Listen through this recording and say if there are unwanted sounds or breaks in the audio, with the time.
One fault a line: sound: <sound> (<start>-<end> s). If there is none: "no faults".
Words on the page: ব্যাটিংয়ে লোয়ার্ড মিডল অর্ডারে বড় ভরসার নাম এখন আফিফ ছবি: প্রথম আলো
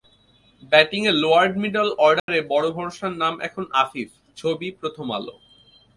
sound: dropout (2.2-2.3 s)